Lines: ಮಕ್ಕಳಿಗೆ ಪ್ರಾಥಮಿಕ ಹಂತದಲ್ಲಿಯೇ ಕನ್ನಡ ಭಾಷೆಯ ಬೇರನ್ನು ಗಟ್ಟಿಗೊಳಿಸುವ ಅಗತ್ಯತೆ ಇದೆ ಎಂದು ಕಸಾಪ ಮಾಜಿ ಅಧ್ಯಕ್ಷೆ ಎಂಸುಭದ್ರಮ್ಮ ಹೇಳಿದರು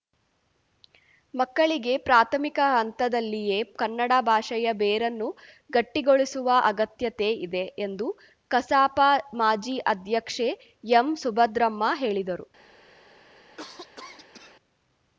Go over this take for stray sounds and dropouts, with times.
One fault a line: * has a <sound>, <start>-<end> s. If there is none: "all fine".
* has a cough, 13.6-14.6 s